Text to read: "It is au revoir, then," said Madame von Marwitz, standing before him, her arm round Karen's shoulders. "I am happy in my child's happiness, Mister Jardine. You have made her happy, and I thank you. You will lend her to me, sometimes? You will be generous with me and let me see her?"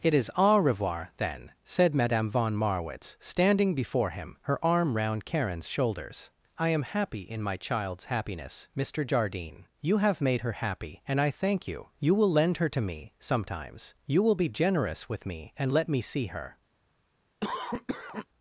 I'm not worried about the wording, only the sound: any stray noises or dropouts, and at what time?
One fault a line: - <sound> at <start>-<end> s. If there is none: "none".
- cough at 17.4-18.3 s